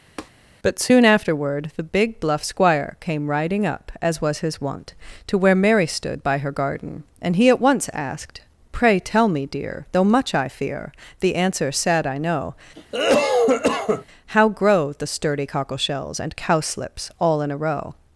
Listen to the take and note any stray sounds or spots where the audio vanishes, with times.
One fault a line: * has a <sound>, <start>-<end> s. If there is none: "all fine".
* has a tap, 0.2-0.3 s
* has a cough, 12.8-14.1 s